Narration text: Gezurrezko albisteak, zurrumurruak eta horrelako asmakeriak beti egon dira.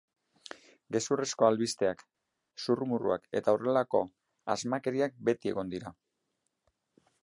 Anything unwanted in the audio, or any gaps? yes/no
no